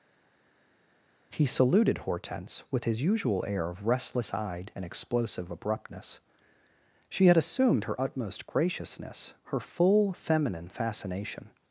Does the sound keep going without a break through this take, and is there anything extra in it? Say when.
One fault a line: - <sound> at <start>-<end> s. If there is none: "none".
none